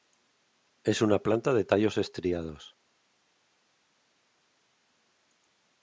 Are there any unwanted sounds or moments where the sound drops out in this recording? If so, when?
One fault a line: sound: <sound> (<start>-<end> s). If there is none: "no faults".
no faults